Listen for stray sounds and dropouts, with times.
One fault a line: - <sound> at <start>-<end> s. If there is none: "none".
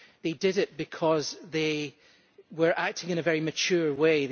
none